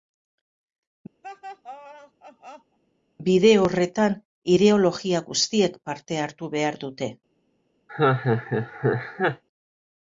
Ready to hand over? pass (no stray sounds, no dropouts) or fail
fail